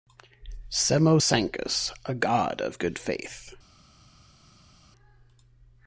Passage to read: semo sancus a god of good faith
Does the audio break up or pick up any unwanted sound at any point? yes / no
no